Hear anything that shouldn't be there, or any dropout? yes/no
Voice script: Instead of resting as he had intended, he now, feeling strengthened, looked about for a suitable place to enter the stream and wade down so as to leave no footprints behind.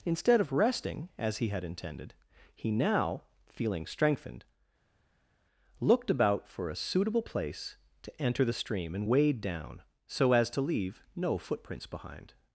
no